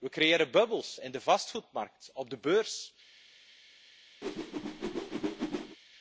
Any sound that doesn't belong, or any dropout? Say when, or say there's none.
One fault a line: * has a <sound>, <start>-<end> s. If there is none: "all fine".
* has a whoosh, 4.2-5.8 s